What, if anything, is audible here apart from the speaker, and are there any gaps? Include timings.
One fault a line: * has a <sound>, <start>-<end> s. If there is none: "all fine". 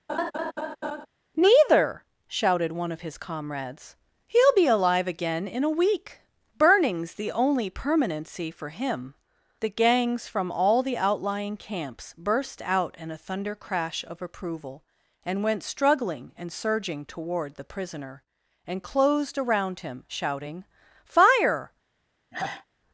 * has a laugh, 0.1-1.1 s
* has a sigh, 22.3-22.7 s